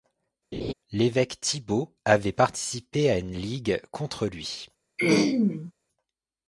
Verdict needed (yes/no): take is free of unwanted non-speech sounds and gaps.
no